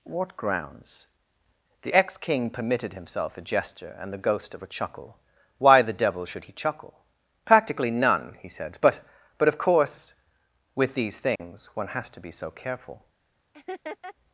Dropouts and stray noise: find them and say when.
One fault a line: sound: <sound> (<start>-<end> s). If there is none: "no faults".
sound: dropout (11.4-11.4 s)
sound: laugh (13.5-14.1 s)